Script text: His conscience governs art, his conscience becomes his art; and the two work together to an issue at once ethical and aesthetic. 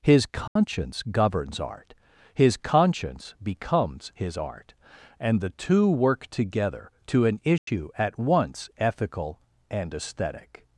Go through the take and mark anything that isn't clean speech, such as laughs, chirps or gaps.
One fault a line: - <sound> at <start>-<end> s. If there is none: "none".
- dropout at 0.5-0.6 s
- dropout at 7.6-7.7 s